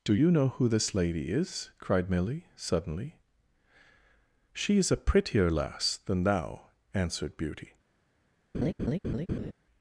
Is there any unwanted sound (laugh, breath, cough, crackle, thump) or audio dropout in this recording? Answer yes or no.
yes